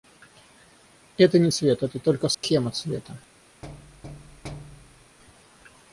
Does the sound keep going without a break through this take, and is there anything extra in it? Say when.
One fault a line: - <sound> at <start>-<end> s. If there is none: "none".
- dropout at 2.3-2.4 s
- thud at 3.6-5.2 s